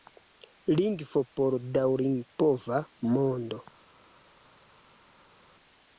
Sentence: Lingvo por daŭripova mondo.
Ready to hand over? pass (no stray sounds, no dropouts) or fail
pass